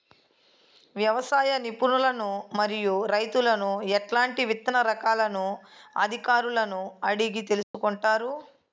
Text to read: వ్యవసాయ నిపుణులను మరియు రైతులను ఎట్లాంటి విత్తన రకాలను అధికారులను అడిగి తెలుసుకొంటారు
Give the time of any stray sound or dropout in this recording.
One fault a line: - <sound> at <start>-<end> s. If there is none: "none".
- dropout at 7.6-7.7 s